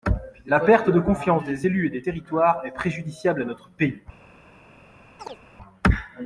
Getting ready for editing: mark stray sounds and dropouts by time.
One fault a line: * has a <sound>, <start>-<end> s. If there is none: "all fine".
* has a chirp, 5.2-5.4 s